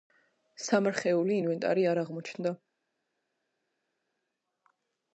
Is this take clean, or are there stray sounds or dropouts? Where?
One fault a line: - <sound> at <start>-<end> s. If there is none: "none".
none